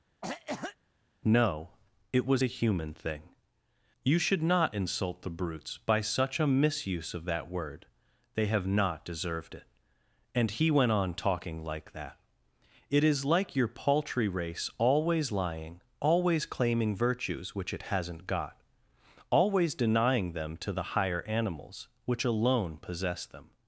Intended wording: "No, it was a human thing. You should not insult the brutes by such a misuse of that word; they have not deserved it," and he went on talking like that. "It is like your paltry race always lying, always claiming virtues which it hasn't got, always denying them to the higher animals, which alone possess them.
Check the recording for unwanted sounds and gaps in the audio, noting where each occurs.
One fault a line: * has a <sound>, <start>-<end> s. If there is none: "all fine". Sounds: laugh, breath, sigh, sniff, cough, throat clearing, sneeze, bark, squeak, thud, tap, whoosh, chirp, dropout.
* has a cough, 0.2-0.8 s